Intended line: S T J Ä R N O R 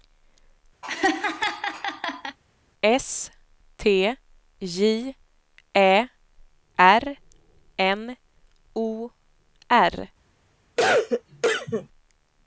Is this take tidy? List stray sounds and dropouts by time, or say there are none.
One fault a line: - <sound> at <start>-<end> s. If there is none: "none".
- laugh at 0.8-2.4 s
- cough at 10.8-11.9 s